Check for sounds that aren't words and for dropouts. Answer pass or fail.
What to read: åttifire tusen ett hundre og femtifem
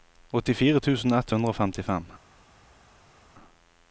pass